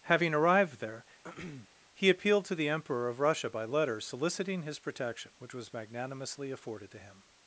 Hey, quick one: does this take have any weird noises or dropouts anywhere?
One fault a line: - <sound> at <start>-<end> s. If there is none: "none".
- throat clearing at 1.2-1.7 s